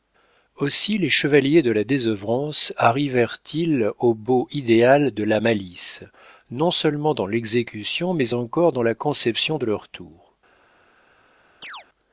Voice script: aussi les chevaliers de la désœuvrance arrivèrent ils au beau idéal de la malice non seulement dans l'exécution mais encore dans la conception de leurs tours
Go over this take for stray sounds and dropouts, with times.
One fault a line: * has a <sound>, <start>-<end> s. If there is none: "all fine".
* has a chirp, 11.6-11.9 s